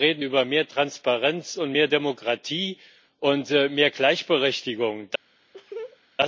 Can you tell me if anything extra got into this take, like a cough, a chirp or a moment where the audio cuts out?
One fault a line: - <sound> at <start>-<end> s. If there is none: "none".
- laugh at 5.5-6.0 s